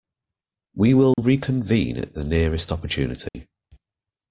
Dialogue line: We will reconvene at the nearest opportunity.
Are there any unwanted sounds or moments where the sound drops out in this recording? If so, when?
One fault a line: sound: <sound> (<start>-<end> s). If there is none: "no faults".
sound: dropout (1.1-1.2 s)
sound: dropout (3.3-3.3 s)